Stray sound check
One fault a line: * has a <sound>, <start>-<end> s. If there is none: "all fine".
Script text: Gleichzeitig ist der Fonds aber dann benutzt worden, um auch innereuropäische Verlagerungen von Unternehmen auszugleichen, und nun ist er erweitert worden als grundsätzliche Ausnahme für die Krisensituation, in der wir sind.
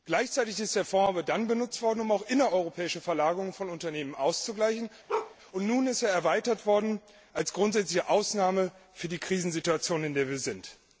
* has a bark, 5.1-5.4 s